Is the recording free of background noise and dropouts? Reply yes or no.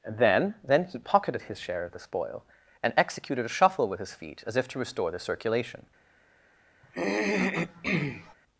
no